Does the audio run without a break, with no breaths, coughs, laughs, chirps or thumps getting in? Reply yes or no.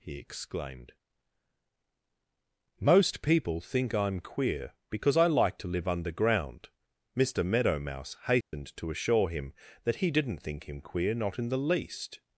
no